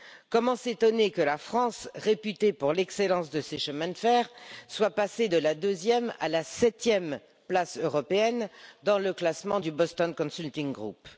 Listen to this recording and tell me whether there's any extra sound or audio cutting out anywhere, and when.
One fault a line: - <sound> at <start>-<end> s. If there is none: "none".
none